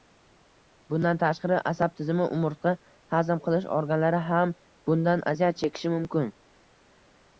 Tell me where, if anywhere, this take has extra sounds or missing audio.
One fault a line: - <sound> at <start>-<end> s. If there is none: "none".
none